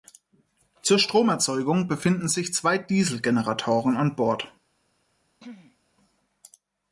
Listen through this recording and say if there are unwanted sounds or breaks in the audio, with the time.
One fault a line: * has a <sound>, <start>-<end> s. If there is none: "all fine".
* has a throat clearing, 5.4-5.8 s